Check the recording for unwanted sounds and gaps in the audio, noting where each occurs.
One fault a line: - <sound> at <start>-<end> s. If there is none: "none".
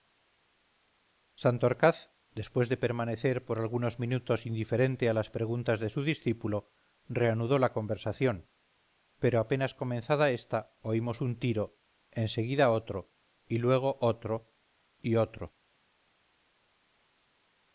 none